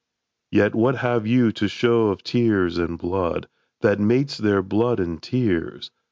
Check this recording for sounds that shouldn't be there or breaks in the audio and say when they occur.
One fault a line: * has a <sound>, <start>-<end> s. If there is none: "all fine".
all fine